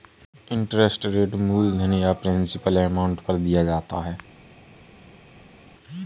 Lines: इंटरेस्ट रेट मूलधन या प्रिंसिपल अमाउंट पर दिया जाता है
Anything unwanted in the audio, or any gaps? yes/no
no